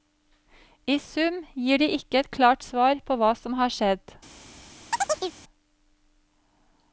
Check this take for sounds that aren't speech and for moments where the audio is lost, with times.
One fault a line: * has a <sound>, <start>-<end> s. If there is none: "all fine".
* has a chirp, 4.9-5.4 s